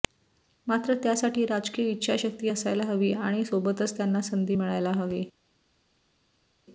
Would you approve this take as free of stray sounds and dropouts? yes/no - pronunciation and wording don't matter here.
yes